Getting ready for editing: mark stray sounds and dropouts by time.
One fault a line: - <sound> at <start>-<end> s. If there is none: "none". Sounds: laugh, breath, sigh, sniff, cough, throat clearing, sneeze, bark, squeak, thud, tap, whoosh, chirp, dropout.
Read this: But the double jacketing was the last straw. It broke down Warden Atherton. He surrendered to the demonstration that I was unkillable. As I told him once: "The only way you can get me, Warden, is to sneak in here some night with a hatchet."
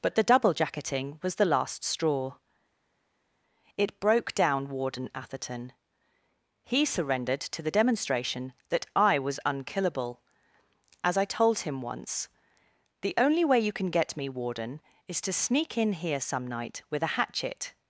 none